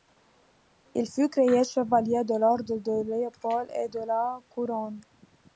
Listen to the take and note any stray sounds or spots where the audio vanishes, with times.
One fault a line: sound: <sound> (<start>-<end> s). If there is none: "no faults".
no faults